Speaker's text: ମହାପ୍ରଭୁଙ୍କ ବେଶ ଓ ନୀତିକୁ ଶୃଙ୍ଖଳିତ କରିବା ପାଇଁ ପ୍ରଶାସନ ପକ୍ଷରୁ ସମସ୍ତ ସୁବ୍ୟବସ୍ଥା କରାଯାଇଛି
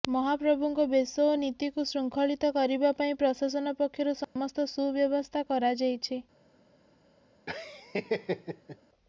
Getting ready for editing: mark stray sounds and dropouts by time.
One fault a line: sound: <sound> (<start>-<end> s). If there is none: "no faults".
sound: dropout (4.2-4.4 s)
sound: laugh (7.5-8.8 s)